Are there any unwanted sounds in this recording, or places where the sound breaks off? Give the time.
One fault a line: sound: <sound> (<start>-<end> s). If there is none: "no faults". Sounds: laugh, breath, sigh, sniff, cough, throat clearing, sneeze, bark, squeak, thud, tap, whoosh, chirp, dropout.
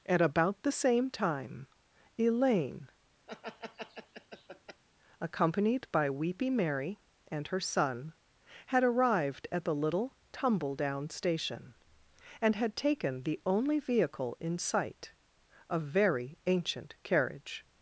sound: laugh (3.3-4.8 s)